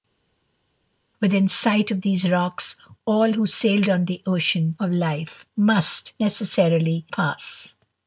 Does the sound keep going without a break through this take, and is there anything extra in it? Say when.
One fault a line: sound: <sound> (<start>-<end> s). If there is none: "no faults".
no faults